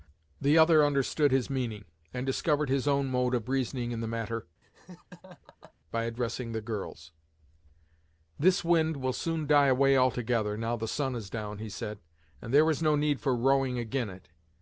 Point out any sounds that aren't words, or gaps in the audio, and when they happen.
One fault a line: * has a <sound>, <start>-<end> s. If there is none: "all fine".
* has a laugh, 4.6-5.7 s